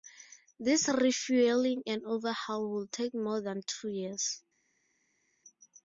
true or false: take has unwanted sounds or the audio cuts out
false